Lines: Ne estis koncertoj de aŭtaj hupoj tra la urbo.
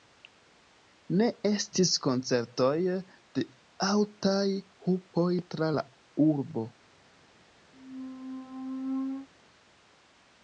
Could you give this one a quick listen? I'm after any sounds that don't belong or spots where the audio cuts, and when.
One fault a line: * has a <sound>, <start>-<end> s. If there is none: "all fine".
* has a squeak, 7.7-9.3 s